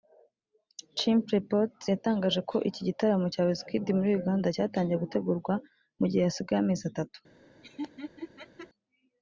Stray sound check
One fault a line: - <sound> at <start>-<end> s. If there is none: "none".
- laugh at 7.6-8.7 s